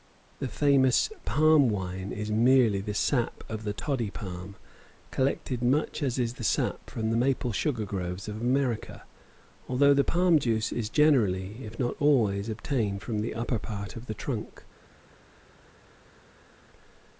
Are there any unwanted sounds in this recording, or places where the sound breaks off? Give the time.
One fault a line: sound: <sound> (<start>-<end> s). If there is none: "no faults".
no faults